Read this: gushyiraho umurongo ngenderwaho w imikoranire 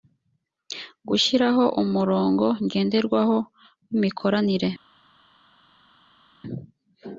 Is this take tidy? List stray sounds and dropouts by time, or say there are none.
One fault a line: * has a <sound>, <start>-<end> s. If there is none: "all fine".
all fine